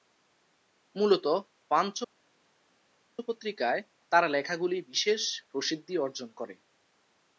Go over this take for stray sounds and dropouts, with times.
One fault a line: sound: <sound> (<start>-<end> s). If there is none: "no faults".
no faults